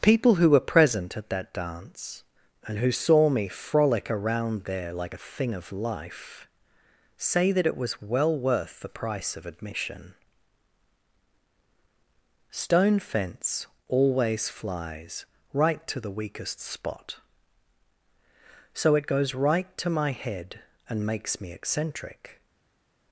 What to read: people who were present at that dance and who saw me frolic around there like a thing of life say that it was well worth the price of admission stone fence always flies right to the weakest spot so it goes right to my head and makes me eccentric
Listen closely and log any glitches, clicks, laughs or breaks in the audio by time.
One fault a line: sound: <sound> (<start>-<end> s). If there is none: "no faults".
no faults